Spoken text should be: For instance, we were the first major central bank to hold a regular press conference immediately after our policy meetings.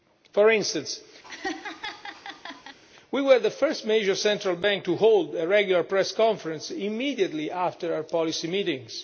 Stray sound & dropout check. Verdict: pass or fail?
fail